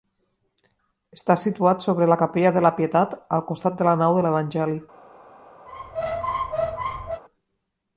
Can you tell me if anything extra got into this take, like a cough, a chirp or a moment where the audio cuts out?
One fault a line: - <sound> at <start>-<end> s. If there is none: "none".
- squeak at 5.7-7.2 s